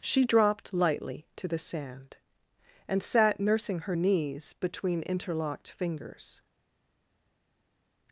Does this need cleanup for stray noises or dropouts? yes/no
no